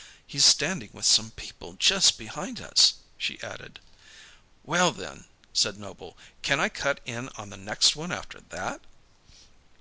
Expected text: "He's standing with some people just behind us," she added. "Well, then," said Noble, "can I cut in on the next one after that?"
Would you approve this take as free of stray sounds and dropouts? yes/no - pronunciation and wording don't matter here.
yes